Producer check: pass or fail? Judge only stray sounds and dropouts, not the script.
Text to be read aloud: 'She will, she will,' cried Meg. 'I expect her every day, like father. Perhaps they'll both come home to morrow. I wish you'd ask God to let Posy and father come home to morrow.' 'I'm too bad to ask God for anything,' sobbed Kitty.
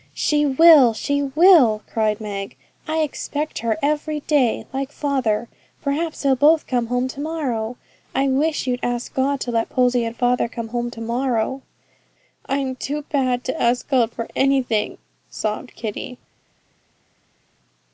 pass